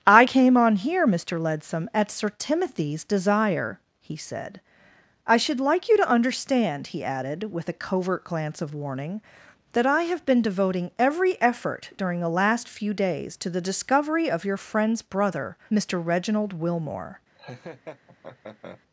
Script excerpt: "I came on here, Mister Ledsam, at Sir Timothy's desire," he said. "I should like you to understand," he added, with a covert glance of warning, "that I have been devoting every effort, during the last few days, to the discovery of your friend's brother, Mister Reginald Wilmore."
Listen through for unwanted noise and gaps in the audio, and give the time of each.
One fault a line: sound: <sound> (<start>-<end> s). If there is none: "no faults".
sound: laugh (17.3-18.8 s)